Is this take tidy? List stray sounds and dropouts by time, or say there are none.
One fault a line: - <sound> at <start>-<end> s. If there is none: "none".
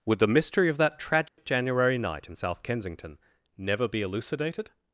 - dropout at 1.3-1.4 s